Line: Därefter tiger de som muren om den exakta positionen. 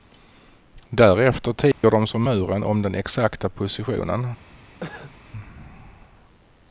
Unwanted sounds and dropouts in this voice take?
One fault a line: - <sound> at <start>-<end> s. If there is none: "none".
- dropout at 1.7-1.8 s
- cough at 4.8-5.1 s